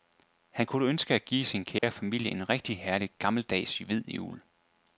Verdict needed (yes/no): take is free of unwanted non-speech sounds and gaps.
no